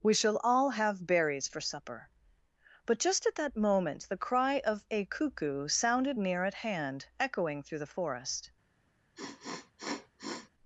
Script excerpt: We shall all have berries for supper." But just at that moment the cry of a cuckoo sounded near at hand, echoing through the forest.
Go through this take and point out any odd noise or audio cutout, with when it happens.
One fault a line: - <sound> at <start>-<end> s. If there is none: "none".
- sniff at 9.2-10.5 s